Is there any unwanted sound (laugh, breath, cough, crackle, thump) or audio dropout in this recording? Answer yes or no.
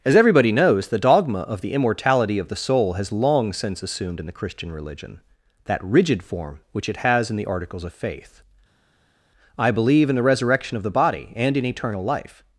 no